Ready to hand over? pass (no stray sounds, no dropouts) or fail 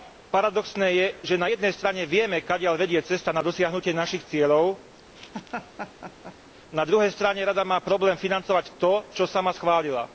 fail